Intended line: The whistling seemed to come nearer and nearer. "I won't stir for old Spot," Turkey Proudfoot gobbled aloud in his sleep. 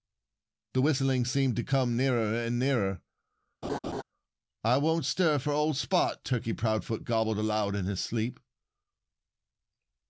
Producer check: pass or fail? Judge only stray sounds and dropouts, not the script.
fail